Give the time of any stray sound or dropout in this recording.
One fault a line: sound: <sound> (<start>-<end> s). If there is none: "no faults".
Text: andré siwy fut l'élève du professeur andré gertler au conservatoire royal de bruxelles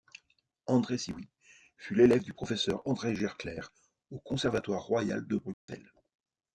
sound: dropout (5.5-5.7 s)